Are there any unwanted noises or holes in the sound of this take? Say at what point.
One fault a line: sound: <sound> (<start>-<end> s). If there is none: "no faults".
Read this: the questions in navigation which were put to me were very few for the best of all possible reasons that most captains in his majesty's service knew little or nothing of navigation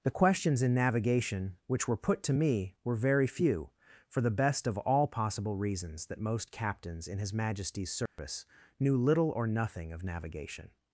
sound: dropout (8.1-8.2 s)